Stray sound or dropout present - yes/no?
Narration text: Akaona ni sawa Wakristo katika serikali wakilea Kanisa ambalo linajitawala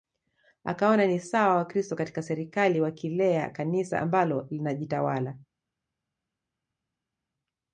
no